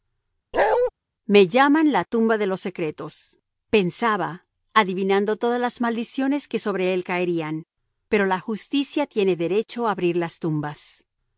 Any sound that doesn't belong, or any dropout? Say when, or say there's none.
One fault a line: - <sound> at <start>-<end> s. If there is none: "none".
- bark at 0.5-0.9 s